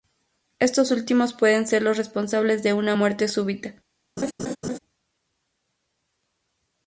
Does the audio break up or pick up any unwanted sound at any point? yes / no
yes